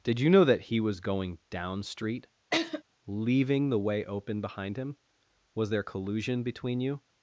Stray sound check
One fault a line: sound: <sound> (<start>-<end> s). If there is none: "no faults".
sound: laugh (2.5-2.8 s)